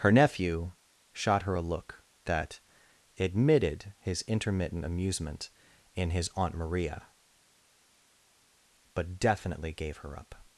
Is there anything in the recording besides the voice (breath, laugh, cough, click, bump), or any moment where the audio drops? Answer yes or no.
no